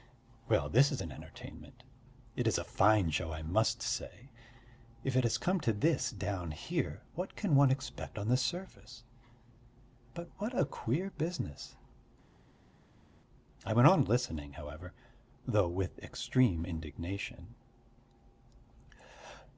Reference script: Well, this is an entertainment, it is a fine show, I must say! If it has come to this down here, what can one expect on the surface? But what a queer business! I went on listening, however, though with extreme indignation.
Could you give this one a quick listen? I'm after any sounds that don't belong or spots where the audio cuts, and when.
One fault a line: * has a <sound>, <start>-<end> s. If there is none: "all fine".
all fine